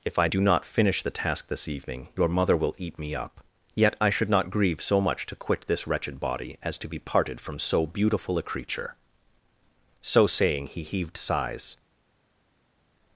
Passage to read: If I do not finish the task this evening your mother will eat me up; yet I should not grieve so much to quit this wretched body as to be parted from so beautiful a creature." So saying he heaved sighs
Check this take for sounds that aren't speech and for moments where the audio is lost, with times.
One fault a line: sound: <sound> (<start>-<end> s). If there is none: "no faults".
no faults